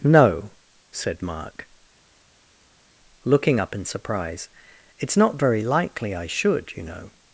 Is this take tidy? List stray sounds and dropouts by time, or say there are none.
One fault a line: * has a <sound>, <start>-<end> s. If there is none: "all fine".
all fine